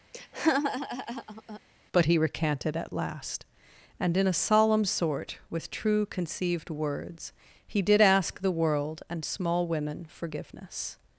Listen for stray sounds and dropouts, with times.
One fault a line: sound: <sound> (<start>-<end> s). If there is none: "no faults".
sound: laugh (0.1-1.6 s)